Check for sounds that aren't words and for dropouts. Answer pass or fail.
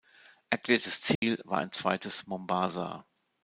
fail